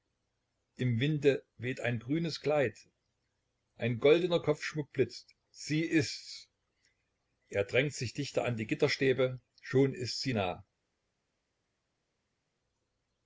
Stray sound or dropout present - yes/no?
no